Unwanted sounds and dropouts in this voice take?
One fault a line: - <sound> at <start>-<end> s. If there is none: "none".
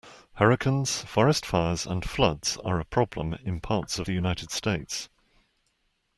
none